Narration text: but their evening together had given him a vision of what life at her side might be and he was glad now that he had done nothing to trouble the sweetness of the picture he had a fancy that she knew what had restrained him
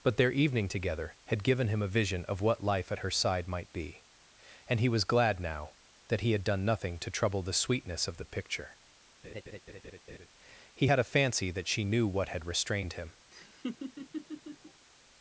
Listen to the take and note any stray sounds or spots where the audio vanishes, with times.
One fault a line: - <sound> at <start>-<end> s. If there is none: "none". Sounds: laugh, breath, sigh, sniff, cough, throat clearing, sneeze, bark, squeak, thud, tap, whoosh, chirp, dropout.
- laugh at 9.2-10.3 s
- laugh at 13.3-14.9 s